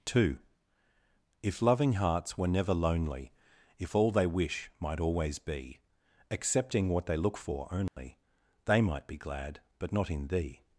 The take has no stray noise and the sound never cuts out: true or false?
false